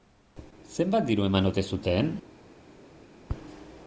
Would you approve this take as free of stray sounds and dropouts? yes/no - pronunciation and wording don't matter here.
yes